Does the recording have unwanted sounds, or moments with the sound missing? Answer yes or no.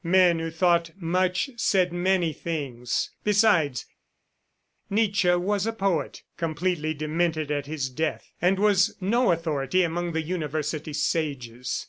no